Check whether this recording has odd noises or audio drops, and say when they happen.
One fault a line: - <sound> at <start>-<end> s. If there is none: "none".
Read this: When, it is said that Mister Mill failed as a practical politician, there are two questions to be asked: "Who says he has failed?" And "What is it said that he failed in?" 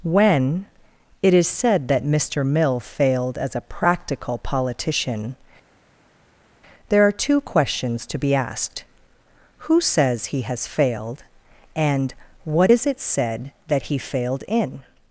none